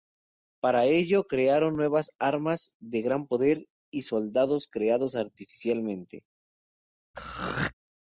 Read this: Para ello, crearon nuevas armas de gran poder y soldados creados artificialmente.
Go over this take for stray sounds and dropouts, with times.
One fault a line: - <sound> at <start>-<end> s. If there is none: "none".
- throat clearing at 7.1-7.7 s